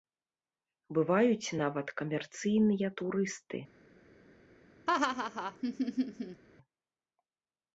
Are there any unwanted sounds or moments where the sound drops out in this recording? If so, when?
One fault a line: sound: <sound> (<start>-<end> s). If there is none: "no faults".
sound: laugh (4.9-6.4 s)